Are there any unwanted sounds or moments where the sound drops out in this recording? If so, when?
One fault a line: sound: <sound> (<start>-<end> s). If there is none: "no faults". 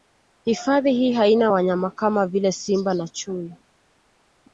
no faults